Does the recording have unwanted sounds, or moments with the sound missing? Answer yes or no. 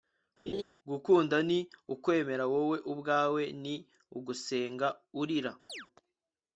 yes